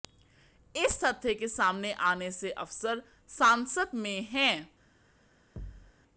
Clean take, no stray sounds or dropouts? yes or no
no